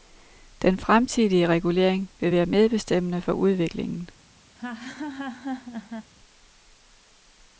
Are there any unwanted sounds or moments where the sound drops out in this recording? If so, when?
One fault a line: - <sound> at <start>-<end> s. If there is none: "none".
- laugh at 4.5-6.1 s